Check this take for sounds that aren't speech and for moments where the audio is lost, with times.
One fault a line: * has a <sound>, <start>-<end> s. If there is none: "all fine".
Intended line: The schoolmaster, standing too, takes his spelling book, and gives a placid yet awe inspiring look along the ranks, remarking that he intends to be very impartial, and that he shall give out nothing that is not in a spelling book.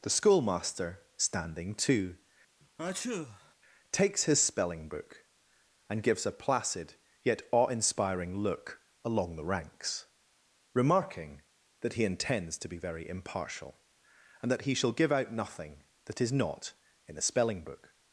* has a sneeze, 2.6-3.5 s